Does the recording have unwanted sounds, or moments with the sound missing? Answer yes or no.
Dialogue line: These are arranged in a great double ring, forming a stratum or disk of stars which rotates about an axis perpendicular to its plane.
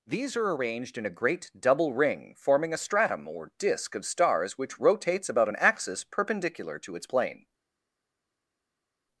no